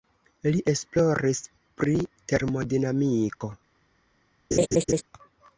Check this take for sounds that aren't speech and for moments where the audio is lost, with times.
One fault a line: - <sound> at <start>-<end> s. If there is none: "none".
- dropout at 3.3-3.4 s
- laugh at 4.5-5.0 s